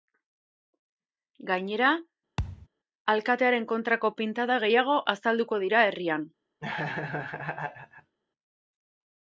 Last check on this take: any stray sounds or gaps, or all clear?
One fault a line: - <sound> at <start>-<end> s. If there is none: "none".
- thud at 2.4-2.7 s
- laugh at 6.6-8.2 s